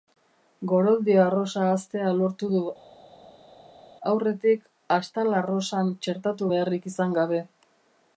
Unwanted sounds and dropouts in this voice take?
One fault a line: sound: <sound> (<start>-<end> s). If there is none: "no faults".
no faults